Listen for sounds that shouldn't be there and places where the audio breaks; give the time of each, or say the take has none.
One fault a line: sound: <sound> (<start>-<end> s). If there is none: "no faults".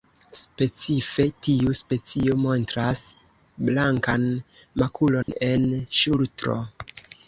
sound: dropout (5.2-5.3 s)